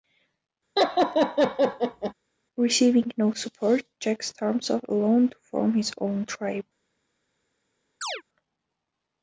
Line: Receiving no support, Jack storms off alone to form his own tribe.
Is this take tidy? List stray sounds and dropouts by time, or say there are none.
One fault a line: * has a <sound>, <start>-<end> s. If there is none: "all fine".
* has a laugh, 0.8-2.1 s
* has a chirp, 8.0-8.2 s